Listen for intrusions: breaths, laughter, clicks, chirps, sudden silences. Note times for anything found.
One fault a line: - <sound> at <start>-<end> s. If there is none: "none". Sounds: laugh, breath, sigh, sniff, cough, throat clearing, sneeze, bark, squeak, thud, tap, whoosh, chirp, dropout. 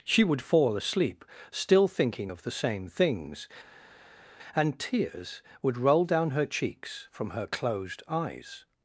none